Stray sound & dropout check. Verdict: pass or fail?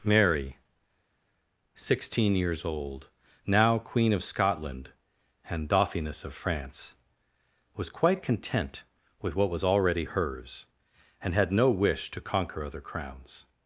pass